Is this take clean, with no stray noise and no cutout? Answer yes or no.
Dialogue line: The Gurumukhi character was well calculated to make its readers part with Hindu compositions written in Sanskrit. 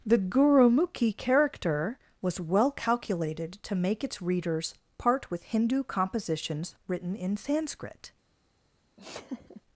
no